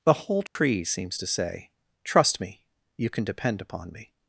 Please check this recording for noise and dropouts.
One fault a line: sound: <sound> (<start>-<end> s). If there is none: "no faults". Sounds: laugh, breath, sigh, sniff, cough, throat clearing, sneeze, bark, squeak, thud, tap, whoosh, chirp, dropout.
sound: dropout (0.5-0.6 s)